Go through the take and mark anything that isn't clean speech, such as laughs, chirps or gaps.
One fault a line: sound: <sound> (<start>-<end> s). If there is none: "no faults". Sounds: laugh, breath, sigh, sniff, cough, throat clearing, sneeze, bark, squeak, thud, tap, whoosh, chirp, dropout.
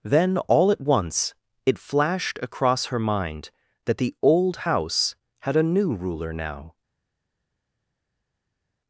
no faults